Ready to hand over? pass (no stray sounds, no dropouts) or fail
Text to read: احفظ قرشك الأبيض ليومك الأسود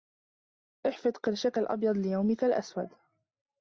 pass